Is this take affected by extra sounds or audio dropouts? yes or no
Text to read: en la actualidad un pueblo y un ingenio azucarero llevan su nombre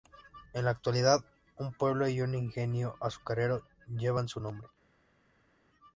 no